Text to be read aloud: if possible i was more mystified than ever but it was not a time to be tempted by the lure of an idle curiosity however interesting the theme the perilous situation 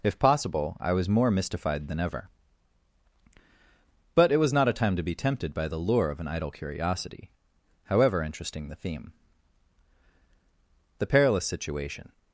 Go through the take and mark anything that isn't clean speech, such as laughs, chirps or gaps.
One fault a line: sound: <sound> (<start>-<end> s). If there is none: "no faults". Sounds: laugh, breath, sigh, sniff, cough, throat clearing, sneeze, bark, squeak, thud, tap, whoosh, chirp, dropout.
no faults